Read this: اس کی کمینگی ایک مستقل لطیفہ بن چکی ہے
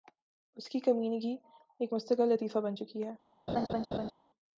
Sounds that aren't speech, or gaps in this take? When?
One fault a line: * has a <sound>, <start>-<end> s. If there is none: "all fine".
* has a laugh, 3.5-4.1 s